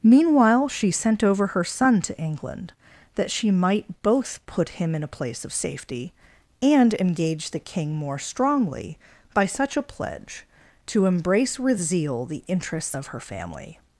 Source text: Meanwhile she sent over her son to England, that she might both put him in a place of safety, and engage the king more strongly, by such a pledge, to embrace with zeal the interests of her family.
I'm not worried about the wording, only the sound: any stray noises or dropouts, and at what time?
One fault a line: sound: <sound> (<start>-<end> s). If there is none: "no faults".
no faults